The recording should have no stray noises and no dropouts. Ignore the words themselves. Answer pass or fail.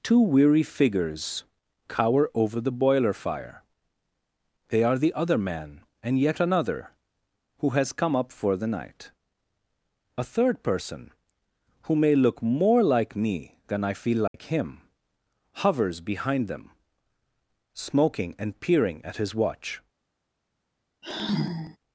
fail